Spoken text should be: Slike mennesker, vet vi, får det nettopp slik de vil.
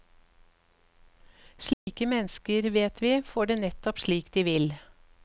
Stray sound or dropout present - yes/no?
yes